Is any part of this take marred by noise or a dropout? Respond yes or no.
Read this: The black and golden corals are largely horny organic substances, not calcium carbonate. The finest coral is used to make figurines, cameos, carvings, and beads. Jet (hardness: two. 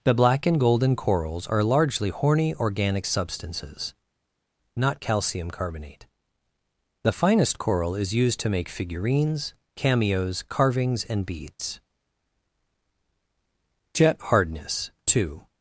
no